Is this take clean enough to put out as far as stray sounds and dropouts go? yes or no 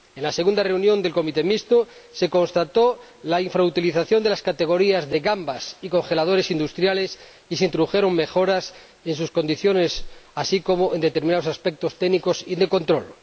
yes